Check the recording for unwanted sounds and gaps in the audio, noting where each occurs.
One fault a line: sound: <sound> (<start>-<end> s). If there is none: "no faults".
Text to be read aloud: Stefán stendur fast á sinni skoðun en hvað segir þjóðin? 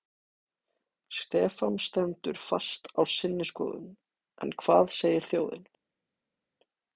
no faults